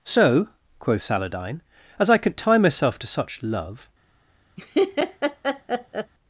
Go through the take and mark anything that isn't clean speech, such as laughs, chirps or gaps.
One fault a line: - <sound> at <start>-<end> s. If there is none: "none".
- laugh at 4.6-6.1 s